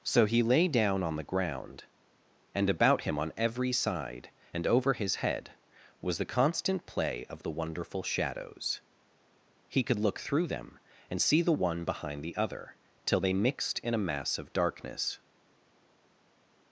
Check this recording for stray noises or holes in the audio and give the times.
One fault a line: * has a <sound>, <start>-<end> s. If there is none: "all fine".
all fine